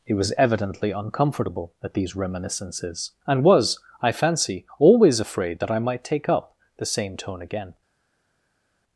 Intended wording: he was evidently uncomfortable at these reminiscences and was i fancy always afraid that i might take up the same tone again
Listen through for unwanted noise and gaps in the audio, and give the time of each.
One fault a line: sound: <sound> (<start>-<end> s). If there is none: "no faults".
no faults